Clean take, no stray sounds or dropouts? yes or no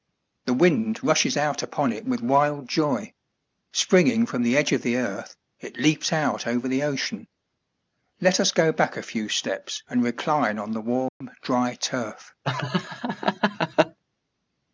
no